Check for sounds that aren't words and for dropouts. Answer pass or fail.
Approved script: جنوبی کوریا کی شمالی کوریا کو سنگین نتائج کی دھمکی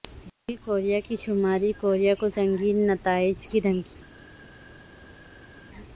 pass